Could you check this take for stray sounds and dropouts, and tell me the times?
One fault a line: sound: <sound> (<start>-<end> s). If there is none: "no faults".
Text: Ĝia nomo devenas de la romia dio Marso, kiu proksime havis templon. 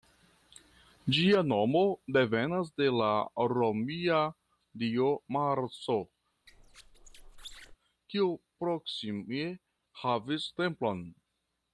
sound: squeak (6.5-7.8 s)